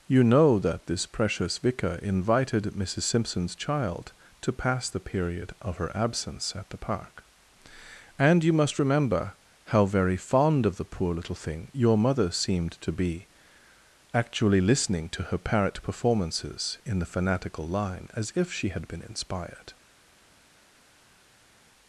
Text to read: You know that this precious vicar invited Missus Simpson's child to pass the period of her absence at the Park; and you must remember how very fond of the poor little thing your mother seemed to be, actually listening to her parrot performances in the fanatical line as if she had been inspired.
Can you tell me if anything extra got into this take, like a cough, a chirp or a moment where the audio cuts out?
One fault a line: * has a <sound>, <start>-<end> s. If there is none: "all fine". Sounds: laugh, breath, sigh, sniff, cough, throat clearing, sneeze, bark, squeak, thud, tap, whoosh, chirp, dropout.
all fine